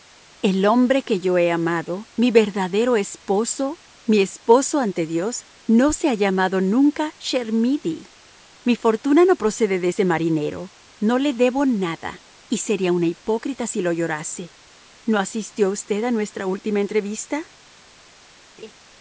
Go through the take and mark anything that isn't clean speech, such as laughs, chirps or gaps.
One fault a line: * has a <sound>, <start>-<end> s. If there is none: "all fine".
* has a laugh, 18.6-18.7 s